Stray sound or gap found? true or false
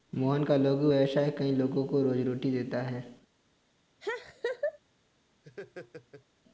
true